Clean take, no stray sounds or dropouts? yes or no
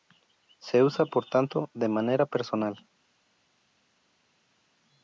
yes